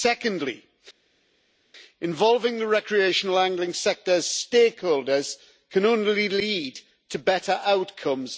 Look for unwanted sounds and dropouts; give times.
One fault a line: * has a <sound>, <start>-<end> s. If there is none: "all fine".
all fine